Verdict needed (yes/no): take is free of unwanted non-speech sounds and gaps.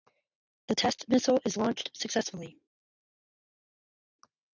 yes